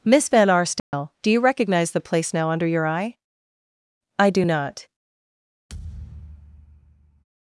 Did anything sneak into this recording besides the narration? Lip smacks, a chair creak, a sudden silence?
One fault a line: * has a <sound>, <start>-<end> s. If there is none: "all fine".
* has a dropout, 0.8-0.9 s
* has a thud, 5.7-7.2 s